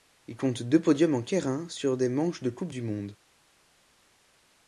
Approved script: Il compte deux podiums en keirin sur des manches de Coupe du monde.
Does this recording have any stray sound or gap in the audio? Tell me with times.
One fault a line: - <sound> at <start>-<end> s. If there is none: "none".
none